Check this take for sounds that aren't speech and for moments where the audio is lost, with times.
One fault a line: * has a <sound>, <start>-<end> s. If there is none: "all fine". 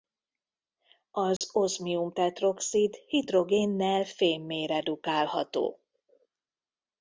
* has a dropout, 1.4-1.4 s